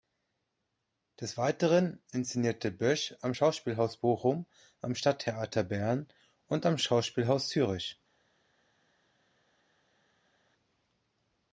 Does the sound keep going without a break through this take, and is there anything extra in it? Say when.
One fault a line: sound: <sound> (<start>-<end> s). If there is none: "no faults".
no faults